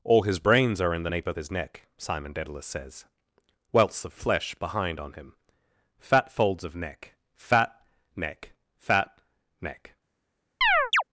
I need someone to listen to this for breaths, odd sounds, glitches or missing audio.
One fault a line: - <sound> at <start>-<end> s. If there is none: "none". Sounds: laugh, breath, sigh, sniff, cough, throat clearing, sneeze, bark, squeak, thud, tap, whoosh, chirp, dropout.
- chirp at 10.6-11.0 s